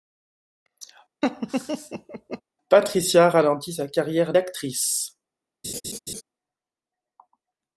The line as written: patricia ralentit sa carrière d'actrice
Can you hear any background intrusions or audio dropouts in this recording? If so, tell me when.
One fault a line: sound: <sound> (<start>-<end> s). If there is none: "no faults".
sound: laugh (1.2-2.4 s)
sound: laugh (5.6-6.2 s)